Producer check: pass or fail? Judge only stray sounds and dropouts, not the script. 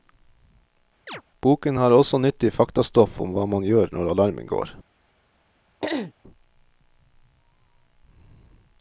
fail